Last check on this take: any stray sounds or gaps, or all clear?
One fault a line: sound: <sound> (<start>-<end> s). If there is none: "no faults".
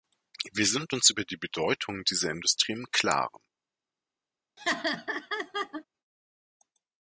sound: laugh (4.6-5.8 s)